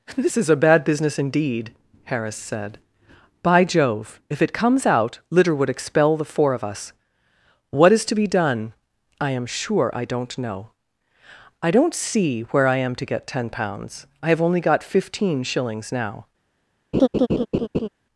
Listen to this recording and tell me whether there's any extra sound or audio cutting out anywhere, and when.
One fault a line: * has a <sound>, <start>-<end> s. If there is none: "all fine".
* has a laugh, 16.9-17.9 s